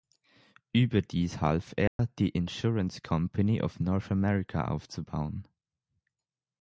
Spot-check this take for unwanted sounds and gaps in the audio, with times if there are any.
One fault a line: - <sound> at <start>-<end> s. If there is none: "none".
- dropout at 1.9-2.0 s